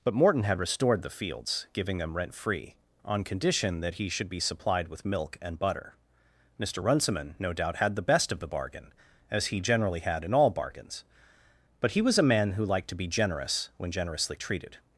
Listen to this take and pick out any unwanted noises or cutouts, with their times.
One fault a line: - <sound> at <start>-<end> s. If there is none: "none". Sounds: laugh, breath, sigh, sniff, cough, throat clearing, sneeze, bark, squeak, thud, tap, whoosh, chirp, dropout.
none